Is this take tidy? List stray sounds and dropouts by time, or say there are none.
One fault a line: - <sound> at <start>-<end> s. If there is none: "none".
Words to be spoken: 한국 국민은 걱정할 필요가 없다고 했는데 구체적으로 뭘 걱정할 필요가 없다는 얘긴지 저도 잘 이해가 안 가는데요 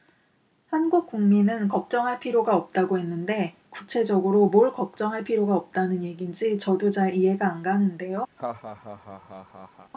- laugh at 8.4-9.9 s